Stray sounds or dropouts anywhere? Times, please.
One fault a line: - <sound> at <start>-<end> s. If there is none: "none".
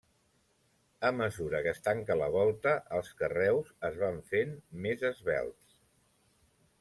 none